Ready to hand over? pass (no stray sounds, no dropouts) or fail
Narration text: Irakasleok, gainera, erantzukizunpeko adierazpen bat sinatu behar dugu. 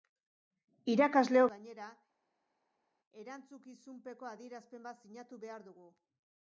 pass